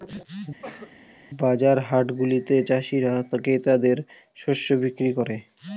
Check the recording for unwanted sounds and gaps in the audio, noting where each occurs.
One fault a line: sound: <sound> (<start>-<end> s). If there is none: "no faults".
sound: cough (0.6-1.0 s)